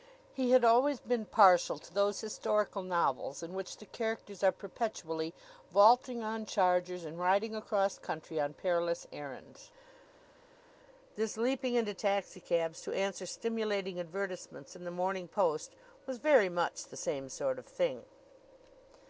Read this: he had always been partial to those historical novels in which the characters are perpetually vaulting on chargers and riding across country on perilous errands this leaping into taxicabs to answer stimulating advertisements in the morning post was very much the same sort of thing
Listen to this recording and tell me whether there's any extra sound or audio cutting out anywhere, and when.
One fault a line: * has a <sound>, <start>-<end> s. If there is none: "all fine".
all fine